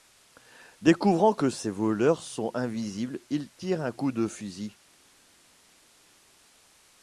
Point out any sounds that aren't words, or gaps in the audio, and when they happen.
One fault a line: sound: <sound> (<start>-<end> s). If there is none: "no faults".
no faults